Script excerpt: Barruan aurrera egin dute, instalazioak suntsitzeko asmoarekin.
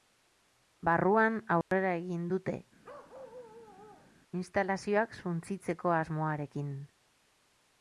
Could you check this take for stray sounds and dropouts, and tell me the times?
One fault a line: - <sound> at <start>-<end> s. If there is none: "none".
- dropout at 1.6-1.7 s
- bark at 2.8-4.2 s